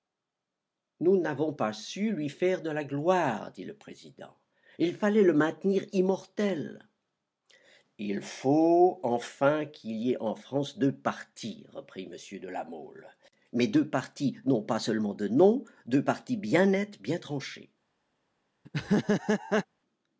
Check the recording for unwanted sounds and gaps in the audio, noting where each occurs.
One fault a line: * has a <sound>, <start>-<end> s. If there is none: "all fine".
* has a laugh, 18.6-19.6 s